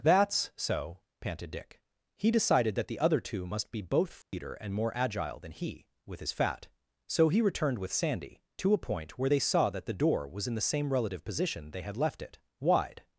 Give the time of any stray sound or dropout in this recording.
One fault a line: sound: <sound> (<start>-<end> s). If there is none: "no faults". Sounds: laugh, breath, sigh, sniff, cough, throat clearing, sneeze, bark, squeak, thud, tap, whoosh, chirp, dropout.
sound: dropout (4.2-4.3 s)